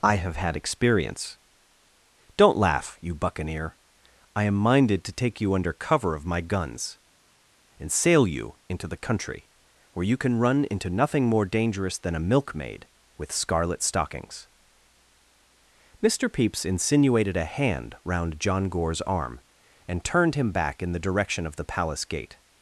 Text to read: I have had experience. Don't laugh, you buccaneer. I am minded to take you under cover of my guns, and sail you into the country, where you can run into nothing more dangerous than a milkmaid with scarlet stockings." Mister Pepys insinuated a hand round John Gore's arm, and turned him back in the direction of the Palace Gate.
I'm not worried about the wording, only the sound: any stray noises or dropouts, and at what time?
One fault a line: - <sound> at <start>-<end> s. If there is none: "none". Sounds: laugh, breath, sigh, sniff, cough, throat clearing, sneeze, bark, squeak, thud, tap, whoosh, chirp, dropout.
none